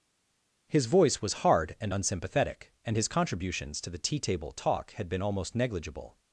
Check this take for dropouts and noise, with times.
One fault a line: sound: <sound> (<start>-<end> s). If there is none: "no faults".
no faults